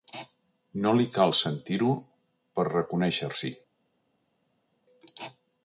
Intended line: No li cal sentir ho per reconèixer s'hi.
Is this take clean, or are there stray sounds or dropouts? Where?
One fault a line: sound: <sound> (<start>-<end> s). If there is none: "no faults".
no faults